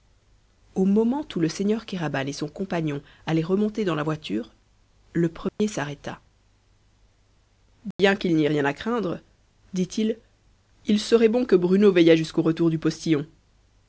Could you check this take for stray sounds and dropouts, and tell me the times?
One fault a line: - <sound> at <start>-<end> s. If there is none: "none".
- dropout at 5.5-5.6 s
- dropout at 7.9-8.0 s